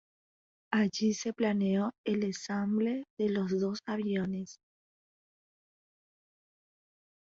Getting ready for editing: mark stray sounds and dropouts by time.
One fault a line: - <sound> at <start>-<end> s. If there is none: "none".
none